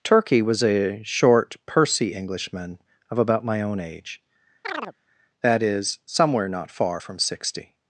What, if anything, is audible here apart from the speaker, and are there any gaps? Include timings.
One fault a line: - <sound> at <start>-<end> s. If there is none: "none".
- chirp at 4.6-4.9 s